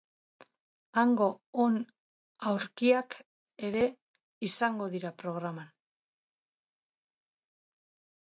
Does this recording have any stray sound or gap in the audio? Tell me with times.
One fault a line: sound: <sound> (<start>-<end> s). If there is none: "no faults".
no faults